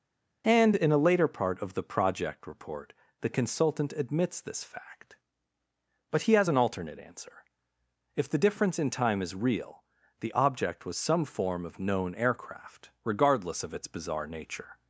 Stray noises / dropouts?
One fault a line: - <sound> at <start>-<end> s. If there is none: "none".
none